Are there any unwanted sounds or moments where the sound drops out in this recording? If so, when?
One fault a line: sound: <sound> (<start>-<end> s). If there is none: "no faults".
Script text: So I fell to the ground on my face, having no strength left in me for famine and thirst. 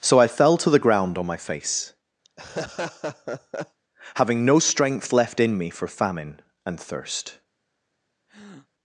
sound: laugh (2.2-3.8 s)
sound: breath (8.3-8.7 s)